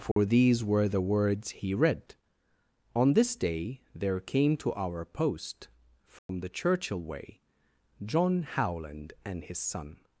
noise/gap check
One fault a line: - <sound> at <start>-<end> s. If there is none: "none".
- dropout at 0.1-0.2 s
- dropout at 6.2-6.3 s